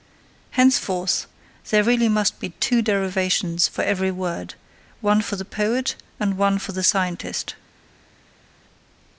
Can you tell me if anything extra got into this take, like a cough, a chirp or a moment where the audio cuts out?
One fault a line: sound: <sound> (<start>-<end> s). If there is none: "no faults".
no faults